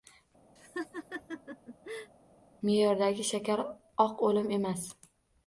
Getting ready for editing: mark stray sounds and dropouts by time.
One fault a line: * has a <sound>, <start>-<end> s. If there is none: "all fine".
* has a laugh, 0.6-2.1 s